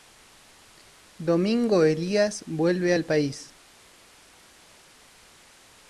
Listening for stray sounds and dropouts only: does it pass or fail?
pass